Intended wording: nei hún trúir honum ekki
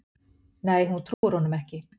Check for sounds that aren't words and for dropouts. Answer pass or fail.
fail